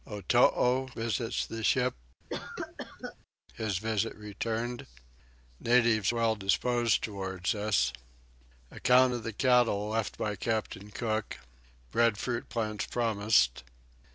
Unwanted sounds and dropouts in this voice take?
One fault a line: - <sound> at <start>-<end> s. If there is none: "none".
- cough at 2.3-3.2 s